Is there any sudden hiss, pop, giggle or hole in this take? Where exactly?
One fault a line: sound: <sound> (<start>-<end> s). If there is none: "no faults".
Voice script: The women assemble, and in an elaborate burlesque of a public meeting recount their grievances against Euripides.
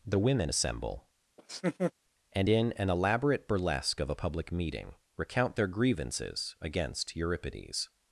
sound: laugh (1.4-1.9 s)